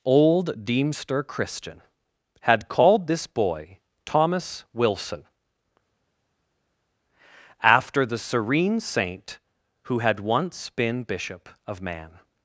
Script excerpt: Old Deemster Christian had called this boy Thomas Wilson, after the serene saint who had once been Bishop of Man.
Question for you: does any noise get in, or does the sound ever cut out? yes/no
no